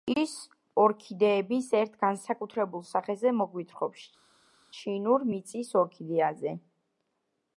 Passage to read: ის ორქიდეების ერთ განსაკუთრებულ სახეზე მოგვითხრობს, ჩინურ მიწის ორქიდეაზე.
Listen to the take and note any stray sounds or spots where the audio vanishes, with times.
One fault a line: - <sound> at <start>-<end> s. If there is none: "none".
none